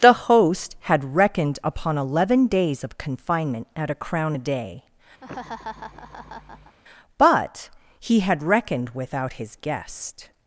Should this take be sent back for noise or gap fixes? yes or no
yes